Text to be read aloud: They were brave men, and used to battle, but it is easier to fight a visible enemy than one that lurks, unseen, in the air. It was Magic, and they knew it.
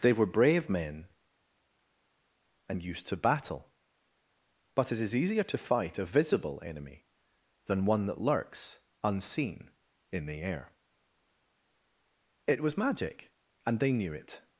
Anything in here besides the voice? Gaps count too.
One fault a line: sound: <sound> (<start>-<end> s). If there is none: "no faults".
no faults